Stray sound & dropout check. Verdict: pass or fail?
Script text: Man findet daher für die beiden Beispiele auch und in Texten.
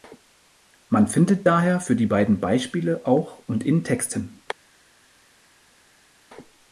pass